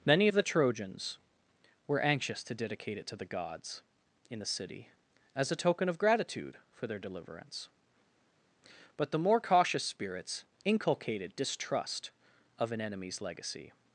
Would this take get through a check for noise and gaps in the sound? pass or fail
pass